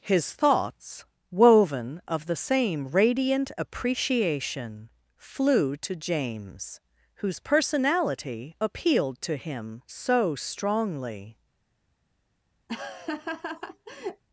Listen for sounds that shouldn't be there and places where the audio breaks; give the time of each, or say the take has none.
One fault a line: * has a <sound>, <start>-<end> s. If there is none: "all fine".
* has a laugh, 12.7-14.2 s